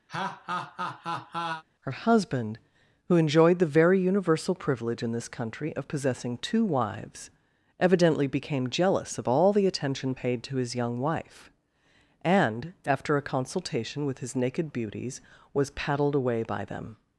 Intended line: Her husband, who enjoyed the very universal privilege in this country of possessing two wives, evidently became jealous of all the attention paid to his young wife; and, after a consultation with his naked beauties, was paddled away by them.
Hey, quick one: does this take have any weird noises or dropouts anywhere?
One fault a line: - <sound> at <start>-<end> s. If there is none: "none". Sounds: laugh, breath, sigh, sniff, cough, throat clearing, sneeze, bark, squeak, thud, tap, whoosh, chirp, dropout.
- laugh at 0.1-1.6 s